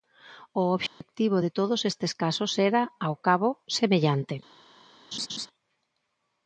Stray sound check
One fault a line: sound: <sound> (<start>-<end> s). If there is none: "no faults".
sound: dropout (0.9-1.0 s)
sound: laugh (5.1-5.5 s)